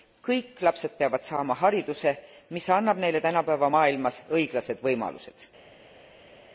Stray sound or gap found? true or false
false